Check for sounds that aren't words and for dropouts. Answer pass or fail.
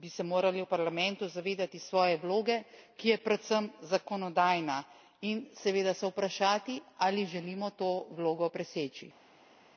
pass